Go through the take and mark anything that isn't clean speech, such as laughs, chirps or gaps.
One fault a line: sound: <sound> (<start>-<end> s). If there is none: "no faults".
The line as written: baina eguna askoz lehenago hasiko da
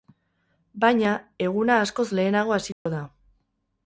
sound: dropout (2.7-2.9 s)